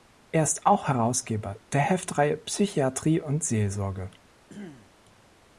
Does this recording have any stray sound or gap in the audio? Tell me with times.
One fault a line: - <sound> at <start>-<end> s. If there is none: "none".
- throat clearing at 4.5-4.9 s